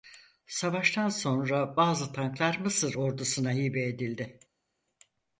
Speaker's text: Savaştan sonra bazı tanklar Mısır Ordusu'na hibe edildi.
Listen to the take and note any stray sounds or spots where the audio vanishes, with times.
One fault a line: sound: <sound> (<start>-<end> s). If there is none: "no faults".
no faults